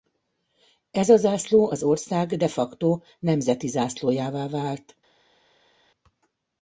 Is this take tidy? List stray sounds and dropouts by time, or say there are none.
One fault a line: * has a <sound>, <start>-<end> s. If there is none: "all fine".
all fine